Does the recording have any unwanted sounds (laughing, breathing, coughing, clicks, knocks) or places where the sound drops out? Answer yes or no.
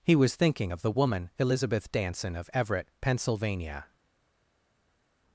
no